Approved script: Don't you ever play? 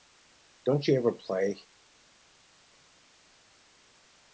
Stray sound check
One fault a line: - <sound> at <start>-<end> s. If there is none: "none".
none